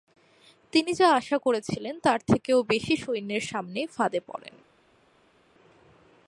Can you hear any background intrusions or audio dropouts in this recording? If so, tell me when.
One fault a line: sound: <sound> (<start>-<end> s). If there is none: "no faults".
no faults